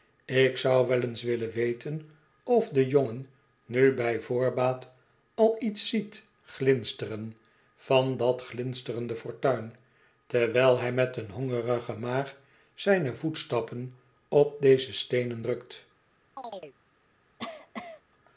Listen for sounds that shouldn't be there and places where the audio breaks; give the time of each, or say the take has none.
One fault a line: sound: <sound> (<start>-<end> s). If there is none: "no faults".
sound: chirp (16.4-16.8 s)
sound: cough (17.4-18.0 s)